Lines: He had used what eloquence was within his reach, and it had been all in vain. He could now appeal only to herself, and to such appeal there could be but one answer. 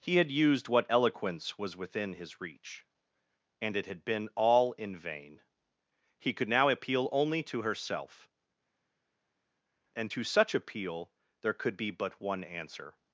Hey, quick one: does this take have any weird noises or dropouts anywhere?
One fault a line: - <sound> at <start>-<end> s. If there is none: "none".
none